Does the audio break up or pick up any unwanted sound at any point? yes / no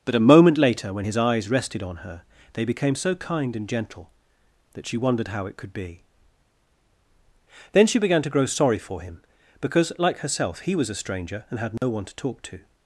yes